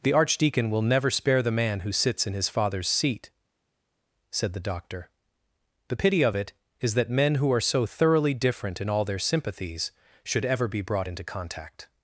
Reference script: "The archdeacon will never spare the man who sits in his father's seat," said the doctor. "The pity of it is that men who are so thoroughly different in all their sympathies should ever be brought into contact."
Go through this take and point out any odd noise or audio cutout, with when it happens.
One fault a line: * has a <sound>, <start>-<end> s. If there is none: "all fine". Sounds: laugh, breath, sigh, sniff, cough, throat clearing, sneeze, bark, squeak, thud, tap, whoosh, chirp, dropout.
all fine